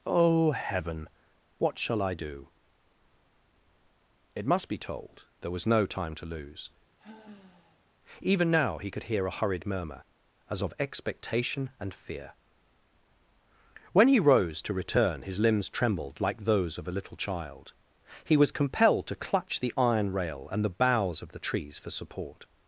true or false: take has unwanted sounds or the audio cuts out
true